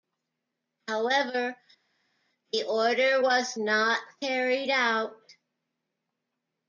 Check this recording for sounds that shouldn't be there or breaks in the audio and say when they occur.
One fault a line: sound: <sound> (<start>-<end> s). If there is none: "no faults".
no faults